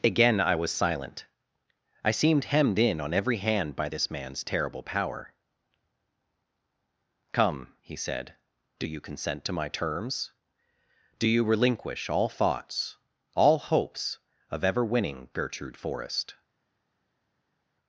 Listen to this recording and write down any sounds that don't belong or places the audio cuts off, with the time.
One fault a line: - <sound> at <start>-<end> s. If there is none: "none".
none